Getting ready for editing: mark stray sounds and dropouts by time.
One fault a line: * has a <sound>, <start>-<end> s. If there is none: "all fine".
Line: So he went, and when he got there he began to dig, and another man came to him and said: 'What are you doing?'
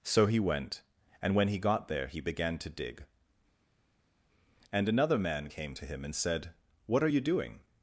all fine